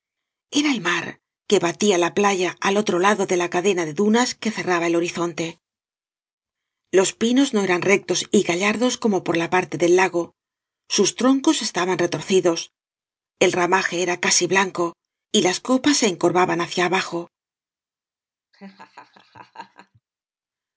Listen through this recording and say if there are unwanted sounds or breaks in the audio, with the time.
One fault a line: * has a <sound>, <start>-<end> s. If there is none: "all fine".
* has a laugh, 18.5-20.0 s